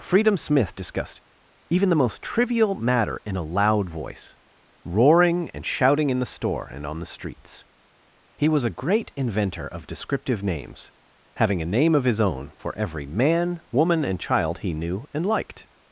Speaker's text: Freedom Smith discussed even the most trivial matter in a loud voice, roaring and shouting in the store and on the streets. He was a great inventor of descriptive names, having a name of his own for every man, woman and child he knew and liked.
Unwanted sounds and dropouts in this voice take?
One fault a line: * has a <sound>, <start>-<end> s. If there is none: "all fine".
all fine